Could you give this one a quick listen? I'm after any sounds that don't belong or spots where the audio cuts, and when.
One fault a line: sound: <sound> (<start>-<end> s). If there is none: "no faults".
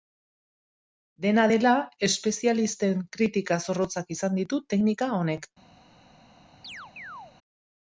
sound: chirp (6.6-7.3 s)